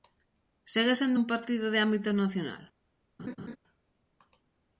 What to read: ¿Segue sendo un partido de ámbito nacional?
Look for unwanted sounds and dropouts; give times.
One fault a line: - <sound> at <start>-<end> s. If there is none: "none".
- laugh at 3.2-3.6 s